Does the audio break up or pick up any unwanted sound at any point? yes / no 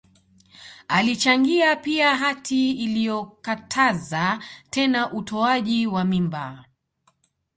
no